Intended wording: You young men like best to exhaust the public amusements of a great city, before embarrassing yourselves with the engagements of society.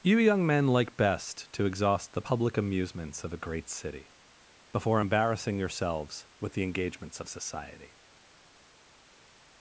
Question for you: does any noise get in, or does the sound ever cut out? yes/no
no